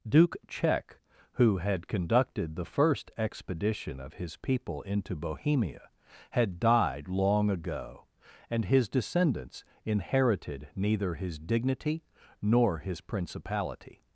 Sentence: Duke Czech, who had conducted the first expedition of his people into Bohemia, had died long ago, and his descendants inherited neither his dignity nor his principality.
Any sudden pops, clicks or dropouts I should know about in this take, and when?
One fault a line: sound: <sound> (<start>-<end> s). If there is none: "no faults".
no faults